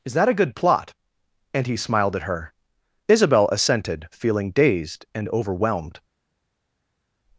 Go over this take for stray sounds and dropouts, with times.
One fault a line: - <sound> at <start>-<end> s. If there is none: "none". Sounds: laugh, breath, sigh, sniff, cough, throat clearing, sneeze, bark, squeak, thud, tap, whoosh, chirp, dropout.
none